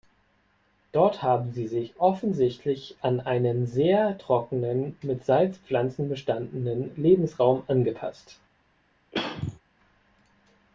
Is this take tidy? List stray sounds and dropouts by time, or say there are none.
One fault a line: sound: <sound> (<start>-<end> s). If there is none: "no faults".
sound: throat clearing (9.1-9.6 s)